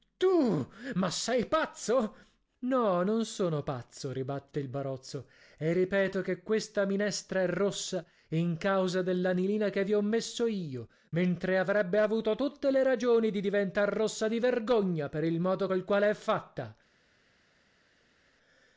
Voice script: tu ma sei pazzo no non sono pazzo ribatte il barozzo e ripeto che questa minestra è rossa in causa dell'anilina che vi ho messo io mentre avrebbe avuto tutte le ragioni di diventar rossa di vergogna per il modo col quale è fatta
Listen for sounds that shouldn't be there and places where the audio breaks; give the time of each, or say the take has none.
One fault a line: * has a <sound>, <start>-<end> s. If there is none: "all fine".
all fine